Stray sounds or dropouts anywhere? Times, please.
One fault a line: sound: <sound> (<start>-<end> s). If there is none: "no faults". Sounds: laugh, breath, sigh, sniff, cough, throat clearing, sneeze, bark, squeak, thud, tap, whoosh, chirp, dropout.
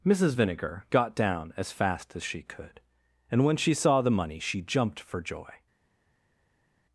no faults